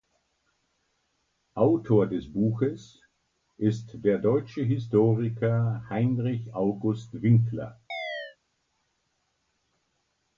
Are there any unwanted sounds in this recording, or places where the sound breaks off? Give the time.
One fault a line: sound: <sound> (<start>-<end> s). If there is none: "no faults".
sound: chirp (7.9-8.4 s)